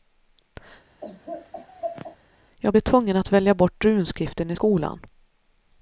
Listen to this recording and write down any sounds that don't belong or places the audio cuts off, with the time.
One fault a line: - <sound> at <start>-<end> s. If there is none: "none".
- laugh at 1.0-2.2 s